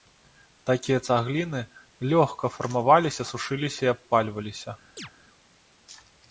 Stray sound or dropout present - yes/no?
yes